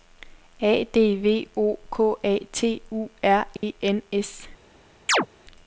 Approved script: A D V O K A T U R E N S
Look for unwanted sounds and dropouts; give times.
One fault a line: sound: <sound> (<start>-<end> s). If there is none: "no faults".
sound: dropout (3.6-3.6 s)
sound: chirp (5.1-5.3 s)